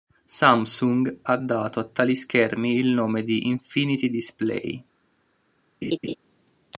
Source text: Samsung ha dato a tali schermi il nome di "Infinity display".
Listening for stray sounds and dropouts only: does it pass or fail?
fail